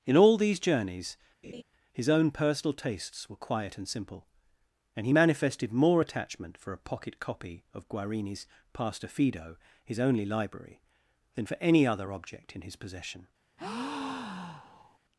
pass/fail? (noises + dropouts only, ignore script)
fail